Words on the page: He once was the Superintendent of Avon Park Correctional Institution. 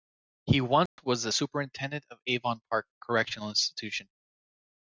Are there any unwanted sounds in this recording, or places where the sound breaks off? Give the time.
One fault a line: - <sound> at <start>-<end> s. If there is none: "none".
- dropout at 0.9-1.0 s